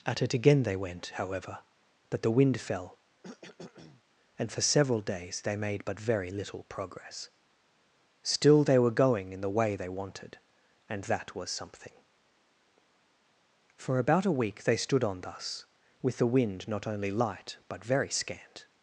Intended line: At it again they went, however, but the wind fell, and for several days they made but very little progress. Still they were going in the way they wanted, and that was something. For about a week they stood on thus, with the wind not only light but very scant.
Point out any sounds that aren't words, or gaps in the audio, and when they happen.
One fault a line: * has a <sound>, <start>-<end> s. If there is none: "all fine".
* has a cough, 3.2-4.0 s